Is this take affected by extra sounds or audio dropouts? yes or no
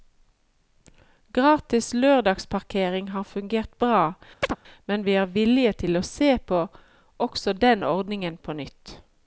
yes